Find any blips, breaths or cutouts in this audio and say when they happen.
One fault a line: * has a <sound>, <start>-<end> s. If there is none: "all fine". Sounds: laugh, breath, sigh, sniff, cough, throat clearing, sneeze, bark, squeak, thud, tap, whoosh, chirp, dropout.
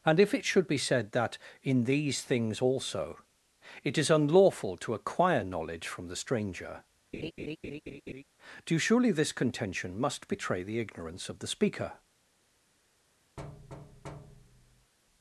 * has a laugh, 7.1-8.2 s
* has a thud, 13.4-14.9 s